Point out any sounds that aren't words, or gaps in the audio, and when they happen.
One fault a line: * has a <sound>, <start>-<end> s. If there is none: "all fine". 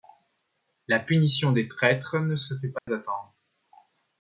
* has a dropout, 2.8-2.9 s